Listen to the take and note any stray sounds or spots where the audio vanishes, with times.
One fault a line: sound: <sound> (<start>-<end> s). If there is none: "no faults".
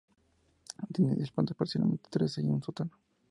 no faults